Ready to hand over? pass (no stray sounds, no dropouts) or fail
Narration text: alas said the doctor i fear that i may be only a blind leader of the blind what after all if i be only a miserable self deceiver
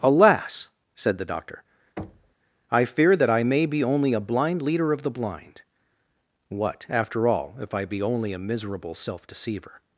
fail